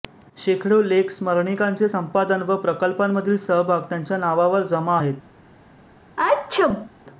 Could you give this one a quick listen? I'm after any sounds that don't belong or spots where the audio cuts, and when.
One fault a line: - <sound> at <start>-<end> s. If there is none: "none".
- sneeze at 6.2-6.9 s